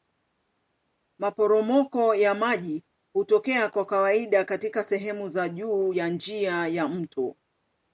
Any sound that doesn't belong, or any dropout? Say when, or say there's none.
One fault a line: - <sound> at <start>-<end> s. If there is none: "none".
none